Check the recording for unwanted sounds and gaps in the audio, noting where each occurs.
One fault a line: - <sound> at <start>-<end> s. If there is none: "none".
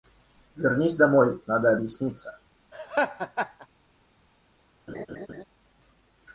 - laugh at 2.7-3.7 s
- laugh at 4.9-5.4 s